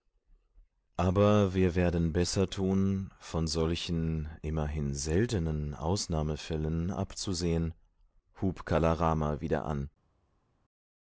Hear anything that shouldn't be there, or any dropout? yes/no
no